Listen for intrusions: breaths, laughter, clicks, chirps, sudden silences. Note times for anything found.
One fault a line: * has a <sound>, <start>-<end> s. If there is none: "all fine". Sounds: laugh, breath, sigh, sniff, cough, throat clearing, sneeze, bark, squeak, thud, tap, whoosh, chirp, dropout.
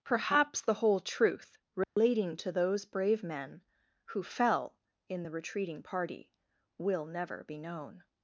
* has a dropout, 1.8-2.0 s